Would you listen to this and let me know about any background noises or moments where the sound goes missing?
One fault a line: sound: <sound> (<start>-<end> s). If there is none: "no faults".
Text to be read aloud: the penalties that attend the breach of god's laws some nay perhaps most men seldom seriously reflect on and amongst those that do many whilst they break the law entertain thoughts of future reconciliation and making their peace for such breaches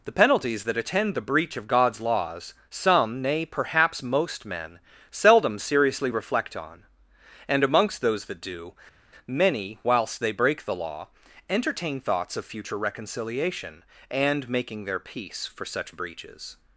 no faults